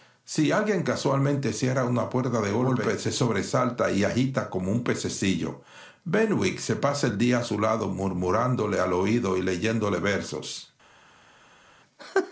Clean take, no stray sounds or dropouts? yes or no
yes